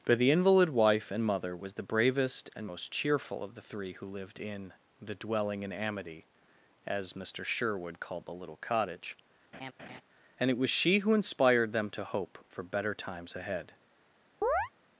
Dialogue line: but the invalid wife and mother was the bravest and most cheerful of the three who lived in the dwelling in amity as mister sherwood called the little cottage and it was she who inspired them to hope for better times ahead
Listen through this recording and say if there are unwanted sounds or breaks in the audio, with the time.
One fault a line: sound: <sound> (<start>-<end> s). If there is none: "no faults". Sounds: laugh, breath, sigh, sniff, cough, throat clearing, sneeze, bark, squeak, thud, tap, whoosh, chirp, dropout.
sound: laugh (9.5-10.0 s)
sound: chirp (14.4-14.7 s)